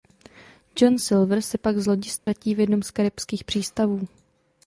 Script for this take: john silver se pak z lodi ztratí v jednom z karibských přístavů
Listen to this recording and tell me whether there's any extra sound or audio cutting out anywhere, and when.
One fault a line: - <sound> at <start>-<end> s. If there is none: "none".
- dropout at 2.2-2.3 s